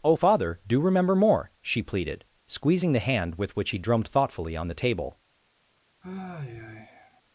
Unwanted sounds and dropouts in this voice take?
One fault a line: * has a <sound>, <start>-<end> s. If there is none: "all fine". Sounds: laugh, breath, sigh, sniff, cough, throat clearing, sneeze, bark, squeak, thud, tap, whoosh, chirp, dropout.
* has a sigh, 6.0-7.2 s